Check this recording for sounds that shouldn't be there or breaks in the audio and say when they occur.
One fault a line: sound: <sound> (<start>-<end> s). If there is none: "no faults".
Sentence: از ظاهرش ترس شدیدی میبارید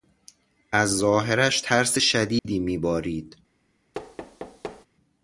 sound: dropout (2.4-2.4 s)
sound: thud (3.9-4.9 s)